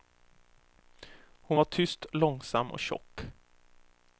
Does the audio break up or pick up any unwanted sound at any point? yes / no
no